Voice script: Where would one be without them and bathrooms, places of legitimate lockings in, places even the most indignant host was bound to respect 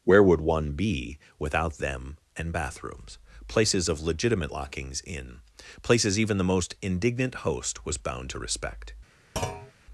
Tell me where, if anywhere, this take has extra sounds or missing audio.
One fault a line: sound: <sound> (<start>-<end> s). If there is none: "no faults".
sound: thud (9.4-9.7 s)